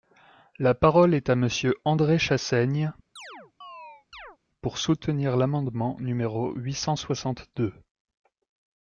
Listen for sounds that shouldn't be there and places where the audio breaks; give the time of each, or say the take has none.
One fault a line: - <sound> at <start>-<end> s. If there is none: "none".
- chirp at 3.2-4.4 s